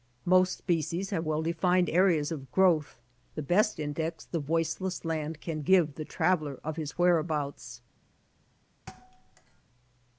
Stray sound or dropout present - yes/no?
yes